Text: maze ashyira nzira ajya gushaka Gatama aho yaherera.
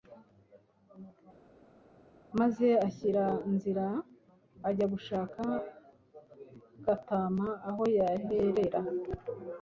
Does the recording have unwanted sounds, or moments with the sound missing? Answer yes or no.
no